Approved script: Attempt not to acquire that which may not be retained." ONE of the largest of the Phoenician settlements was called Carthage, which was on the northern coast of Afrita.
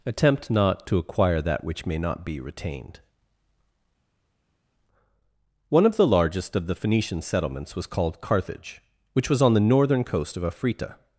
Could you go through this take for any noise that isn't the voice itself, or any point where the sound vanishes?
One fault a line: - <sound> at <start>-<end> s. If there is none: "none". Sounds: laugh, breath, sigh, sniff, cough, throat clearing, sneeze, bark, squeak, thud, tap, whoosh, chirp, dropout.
none